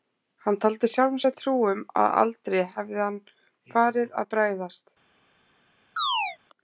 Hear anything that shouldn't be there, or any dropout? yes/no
yes